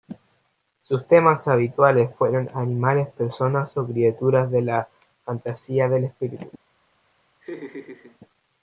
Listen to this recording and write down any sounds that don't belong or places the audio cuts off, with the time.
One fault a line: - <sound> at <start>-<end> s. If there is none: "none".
- laugh at 7.4-8.2 s